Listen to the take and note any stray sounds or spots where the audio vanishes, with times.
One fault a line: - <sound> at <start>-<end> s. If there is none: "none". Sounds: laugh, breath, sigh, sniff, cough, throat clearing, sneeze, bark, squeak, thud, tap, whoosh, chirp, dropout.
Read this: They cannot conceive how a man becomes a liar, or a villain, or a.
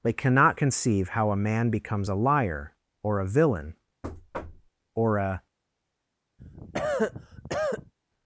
- thud at 4.0-4.7 s
- cough at 6.4-7.9 s